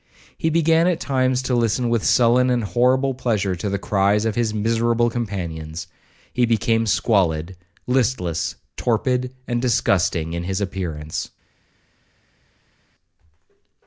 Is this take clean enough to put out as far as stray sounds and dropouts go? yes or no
yes